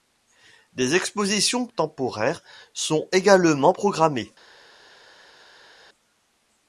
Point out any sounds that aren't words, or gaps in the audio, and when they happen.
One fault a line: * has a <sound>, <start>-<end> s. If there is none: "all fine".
all fine